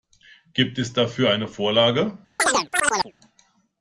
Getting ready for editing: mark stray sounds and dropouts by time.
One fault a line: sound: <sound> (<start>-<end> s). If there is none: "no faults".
sound: chirp (2.4-3.1 s)